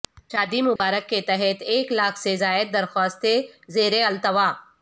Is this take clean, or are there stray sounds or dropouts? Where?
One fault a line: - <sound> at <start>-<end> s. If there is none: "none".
- dropout at 0.8-0.8 s